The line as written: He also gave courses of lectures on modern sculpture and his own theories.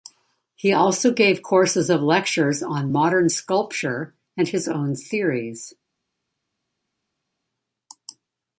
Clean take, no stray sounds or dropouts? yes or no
yes